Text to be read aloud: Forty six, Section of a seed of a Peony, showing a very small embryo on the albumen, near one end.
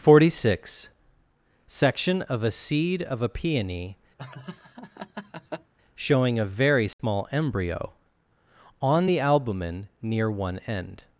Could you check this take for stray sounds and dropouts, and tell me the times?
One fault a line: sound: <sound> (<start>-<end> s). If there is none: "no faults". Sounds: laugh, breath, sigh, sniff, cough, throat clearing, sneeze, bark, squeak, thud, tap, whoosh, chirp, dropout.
sound: laugh (4.2-5.7 s)
sound: dropout (6.9-7.0 s)